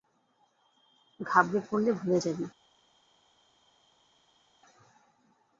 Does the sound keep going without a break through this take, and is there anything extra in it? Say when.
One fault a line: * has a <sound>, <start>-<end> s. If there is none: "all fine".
all fine